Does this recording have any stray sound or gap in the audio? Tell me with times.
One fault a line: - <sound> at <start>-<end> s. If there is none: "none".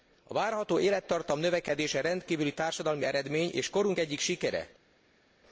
none